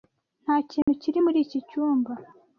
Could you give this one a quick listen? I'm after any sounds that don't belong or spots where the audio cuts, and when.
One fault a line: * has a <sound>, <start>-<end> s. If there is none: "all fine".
* has a dropout, 0.8-0.9 s